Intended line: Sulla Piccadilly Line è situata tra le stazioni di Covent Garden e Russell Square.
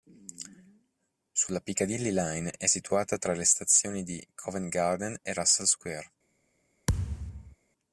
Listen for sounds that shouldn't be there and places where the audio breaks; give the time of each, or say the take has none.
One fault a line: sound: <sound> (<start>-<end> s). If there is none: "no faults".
sound: thud (6.9-7.6 s)